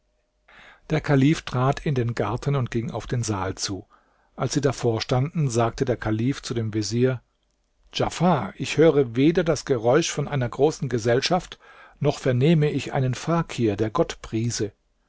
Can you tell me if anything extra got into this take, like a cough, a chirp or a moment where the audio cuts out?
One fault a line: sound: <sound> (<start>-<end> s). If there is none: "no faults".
no faults